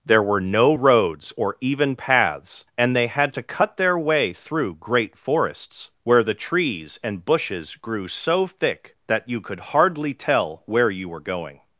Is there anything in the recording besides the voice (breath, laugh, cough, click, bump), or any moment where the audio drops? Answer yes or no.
no